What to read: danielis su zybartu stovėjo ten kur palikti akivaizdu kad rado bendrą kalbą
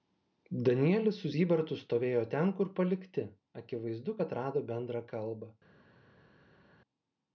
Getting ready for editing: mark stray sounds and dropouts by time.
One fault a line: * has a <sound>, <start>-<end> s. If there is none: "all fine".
all fine